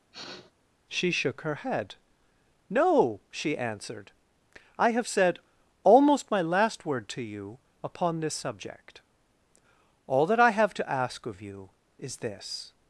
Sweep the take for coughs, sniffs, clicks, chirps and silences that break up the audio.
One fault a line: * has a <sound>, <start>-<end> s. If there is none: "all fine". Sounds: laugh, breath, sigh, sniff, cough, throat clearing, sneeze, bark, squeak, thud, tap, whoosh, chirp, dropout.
* has a sniff, 0.1-0.5 s